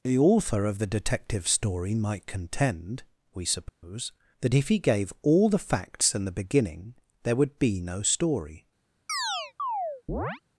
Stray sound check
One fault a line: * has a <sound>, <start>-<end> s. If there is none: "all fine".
* has a dropout, 3.7-3.8 s
* has a chirp, 9.1-10.4 s